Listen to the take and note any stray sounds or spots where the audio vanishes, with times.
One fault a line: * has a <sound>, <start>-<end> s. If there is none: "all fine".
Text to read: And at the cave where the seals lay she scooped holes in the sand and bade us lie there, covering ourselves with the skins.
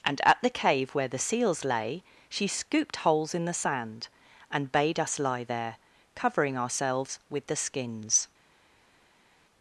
all fine